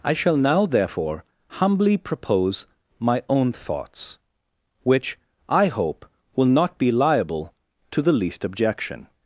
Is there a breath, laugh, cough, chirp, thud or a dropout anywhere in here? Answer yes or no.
no